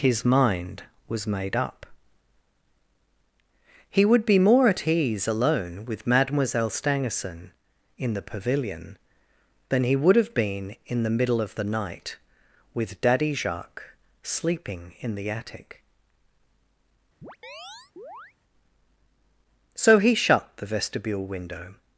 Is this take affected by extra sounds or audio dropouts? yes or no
yes